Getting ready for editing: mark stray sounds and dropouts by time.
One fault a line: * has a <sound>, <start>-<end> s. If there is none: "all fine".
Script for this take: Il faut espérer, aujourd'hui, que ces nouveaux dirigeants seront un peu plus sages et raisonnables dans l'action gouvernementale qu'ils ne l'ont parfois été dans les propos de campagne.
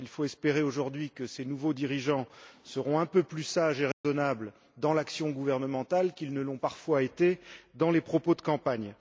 * has a dropout, 3.9-4.0 s